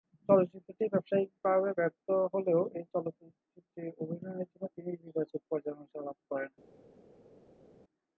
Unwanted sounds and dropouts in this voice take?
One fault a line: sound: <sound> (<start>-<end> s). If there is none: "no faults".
no faults